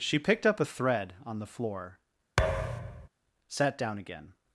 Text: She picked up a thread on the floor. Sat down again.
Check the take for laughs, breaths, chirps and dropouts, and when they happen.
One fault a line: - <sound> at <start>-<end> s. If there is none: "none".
- thud at 2.4-3.1 s